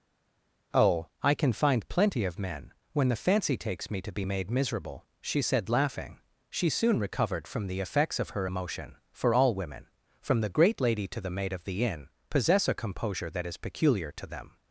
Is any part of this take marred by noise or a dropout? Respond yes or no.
no